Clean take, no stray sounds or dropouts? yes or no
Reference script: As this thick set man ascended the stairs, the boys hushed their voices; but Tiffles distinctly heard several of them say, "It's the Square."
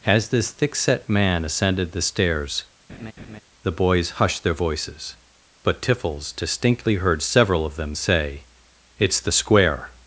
no